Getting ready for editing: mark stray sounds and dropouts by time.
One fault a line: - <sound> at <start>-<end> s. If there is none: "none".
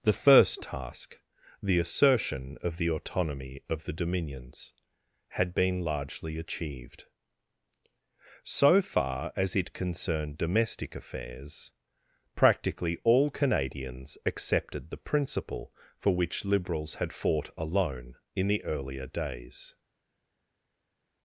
none